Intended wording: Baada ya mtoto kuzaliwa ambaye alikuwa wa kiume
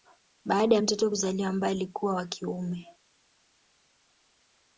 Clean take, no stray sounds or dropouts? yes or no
yes